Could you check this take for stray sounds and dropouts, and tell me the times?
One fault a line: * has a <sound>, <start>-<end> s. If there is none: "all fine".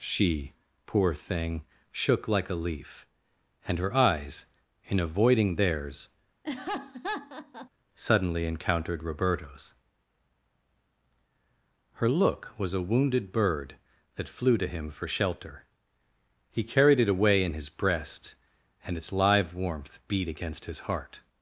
* has a laugh, 6.4-7.7 s